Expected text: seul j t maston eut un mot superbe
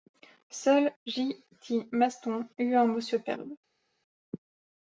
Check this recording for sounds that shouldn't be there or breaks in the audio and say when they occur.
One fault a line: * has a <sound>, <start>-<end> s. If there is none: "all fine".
all fine